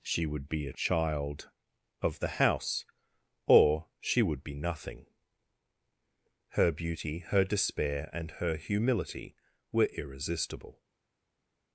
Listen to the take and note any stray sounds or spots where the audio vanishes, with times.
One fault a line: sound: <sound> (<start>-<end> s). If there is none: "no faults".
no faults